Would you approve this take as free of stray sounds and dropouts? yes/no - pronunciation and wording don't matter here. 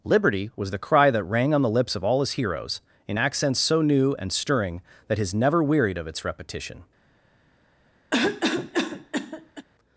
no